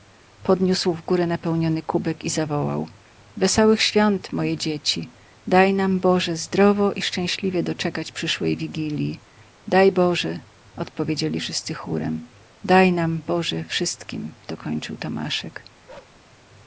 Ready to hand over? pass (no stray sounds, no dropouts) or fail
fail